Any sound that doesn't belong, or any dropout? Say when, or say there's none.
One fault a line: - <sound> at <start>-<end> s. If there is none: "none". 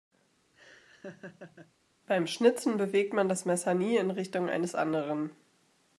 - laugh at 0.5-1.7 s